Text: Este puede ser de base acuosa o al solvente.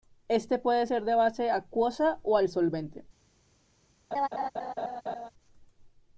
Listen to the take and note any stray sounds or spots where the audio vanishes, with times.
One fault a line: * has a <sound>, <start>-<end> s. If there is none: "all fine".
* has a laugh, 4.1-5.3 s